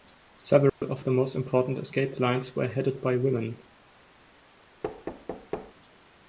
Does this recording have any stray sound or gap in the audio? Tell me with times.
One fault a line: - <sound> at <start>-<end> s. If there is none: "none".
- dropout at 0.7-0.8 s
- thud at 4.8-5.7 s